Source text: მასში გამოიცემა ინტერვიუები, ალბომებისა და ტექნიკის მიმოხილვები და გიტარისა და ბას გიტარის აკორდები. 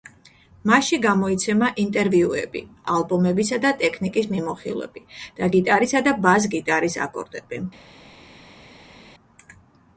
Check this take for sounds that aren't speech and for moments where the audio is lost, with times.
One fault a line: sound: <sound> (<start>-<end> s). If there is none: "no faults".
no faults